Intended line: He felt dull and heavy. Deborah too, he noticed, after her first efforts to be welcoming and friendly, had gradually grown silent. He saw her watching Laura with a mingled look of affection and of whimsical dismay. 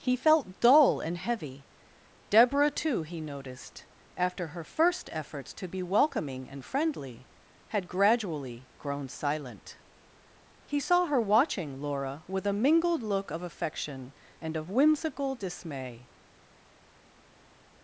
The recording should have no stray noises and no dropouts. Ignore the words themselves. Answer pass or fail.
pass